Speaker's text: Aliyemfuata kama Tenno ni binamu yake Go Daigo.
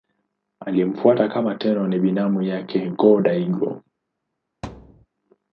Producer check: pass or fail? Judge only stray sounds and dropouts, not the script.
fail